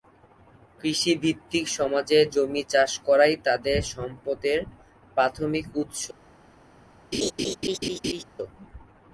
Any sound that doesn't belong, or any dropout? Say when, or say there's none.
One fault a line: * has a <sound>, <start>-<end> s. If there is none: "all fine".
* has a laugh, 7.1-8.2 s